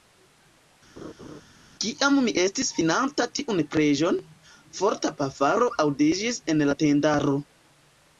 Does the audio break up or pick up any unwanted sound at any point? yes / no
yes